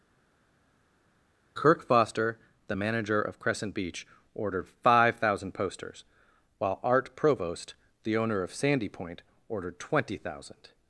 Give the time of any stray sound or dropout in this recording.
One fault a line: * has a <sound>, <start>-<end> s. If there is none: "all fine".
all fine